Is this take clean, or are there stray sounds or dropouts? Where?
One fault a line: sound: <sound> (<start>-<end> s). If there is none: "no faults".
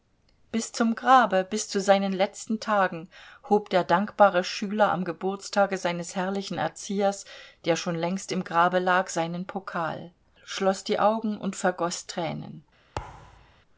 sound: thud (13.0-13.6 s)